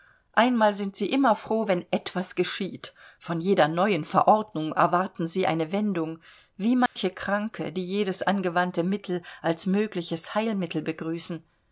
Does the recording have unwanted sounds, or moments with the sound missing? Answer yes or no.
yes